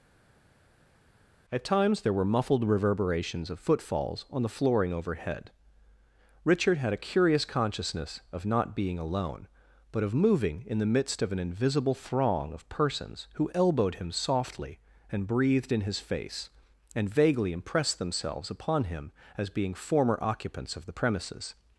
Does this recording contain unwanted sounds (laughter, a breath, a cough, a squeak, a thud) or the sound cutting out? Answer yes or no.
no